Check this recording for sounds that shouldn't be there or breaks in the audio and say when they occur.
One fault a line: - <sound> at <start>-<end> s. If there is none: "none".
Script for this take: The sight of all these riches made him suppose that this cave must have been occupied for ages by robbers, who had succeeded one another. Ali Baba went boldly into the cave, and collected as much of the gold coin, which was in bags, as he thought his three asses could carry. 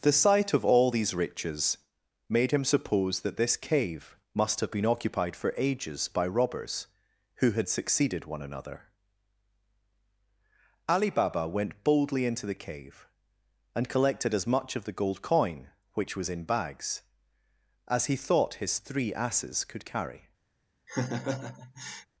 - laugh at 20.9-22.1 s